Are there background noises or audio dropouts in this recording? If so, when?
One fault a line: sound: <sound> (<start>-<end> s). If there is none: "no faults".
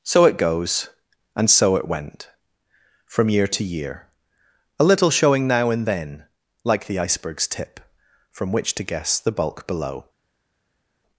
no faults